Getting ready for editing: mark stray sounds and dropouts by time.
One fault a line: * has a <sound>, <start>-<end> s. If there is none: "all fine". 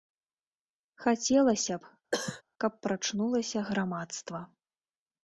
* has a cough, 2.1-2.4 s